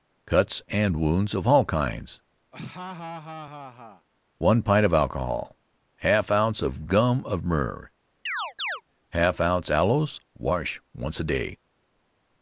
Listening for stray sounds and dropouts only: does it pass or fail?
fail